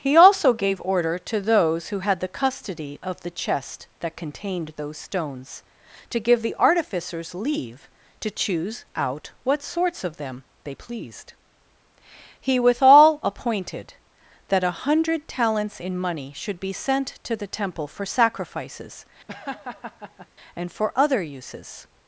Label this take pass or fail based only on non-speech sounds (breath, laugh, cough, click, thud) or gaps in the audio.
fail